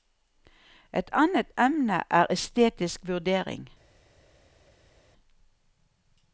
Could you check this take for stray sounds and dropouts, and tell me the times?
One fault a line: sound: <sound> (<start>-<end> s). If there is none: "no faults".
no faults